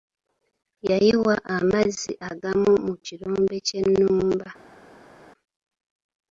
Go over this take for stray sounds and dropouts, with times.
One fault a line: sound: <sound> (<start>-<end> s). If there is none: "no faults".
no faults